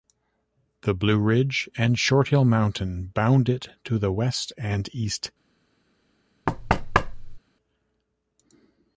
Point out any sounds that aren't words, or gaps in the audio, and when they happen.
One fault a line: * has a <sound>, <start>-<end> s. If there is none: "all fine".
* has a thud, 6.5-7.4 s